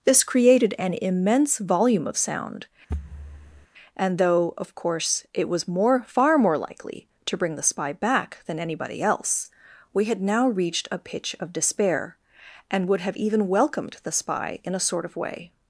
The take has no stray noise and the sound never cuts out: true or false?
false